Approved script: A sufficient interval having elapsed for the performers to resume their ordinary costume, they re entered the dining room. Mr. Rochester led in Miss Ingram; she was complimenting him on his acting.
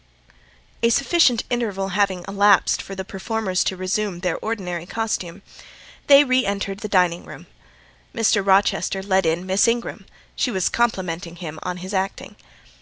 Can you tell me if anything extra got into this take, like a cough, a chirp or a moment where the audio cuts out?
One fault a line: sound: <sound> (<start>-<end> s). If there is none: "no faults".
no faults